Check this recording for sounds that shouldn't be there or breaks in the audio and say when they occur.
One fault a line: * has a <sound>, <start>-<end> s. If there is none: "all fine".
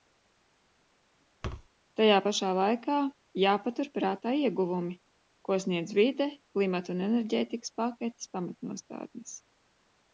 * has a thud, 1.4-1.7 s